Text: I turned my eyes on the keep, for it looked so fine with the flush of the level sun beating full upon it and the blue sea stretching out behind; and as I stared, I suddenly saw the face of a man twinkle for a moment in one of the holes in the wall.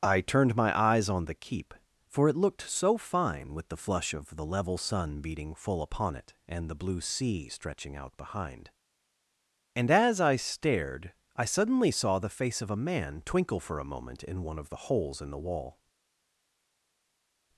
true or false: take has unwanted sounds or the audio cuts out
false